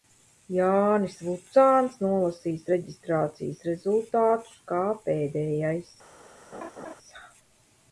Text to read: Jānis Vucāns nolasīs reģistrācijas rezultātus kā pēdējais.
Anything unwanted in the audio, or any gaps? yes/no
yes